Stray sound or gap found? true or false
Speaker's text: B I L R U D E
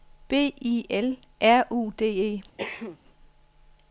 true